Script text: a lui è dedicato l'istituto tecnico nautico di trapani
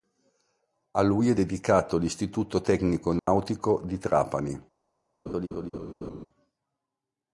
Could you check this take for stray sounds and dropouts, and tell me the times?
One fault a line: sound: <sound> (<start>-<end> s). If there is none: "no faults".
sound: dropout (3.2-3.3 s)
sound: laugh (5.3-6.3 s)